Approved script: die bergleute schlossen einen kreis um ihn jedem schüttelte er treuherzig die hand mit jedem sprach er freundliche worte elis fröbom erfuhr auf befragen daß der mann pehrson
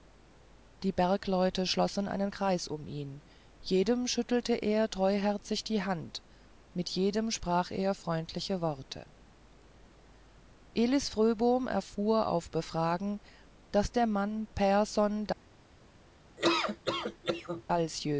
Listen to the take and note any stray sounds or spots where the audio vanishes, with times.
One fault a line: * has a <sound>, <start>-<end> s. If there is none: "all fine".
* has a laugh, 16.4-17.6 s